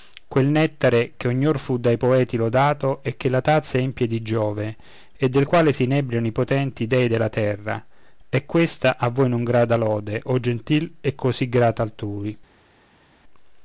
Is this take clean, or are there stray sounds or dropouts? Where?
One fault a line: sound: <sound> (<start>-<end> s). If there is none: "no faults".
no faults